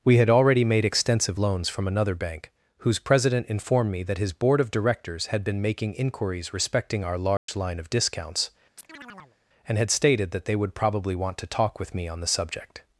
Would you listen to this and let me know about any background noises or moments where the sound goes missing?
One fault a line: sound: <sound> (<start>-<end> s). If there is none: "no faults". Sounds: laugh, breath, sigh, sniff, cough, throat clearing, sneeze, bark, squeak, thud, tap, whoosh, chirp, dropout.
sound: dropout (7.4-7.5 s)
sound: chirp (8.8-9.4 s)